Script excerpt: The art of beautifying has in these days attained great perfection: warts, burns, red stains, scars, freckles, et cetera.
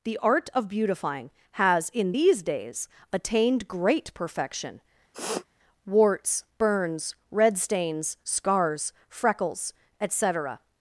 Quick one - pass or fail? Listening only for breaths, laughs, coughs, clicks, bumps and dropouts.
fail